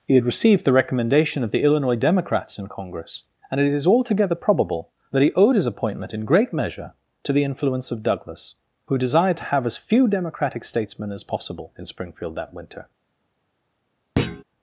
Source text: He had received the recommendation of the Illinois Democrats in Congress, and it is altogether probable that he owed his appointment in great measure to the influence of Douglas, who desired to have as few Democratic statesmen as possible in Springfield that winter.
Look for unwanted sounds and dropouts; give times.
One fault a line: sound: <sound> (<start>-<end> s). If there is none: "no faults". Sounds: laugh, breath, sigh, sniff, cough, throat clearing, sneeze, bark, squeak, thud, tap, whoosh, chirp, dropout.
sound: thud (14.2-14.4 s)